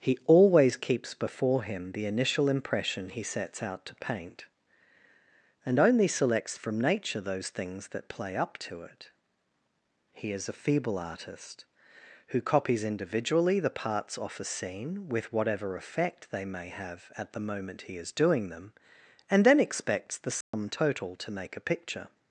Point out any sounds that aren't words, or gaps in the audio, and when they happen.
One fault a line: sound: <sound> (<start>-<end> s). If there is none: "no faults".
sound: dropout (20.4-20.5 s)